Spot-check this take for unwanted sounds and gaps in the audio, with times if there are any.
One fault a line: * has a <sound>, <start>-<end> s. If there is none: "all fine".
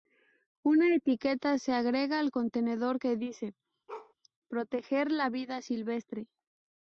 * has a bark, 3.9-4.1 s